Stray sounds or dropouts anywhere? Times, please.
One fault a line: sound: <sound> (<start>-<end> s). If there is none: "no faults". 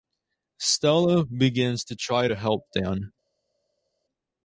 no faults